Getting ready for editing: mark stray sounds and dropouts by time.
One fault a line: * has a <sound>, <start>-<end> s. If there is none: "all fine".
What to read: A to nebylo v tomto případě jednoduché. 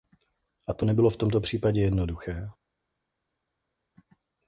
all fine